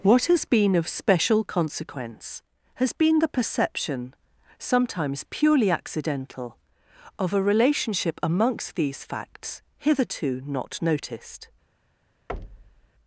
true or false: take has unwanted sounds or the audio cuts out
true